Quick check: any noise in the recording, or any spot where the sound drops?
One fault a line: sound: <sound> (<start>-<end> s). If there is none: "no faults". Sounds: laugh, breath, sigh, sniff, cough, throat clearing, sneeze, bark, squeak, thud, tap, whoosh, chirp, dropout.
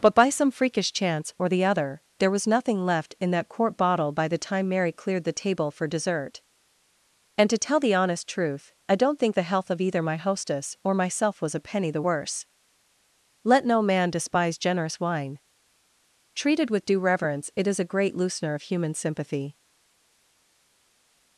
no faults